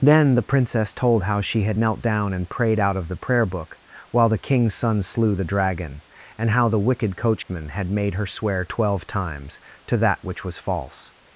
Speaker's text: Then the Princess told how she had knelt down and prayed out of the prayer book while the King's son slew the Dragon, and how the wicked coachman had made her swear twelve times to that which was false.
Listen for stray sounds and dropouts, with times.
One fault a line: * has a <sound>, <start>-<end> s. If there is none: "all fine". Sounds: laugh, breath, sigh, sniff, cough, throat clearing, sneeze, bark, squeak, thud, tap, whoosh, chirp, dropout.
* has a dropout, 7.4-7.5 s